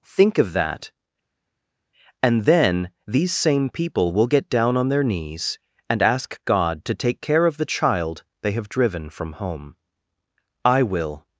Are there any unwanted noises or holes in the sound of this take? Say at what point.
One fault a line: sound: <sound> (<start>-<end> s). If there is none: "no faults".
no faults